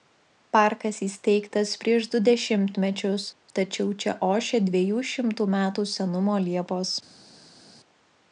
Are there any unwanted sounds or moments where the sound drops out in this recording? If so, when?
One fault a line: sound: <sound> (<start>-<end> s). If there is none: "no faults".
no faults